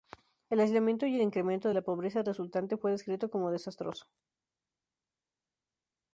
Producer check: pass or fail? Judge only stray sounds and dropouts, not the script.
pass